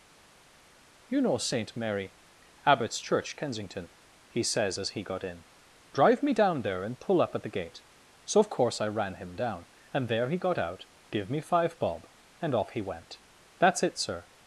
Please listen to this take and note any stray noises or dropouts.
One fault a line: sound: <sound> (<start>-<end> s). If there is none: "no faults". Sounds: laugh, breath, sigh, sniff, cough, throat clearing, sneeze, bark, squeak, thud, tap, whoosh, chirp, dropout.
no faults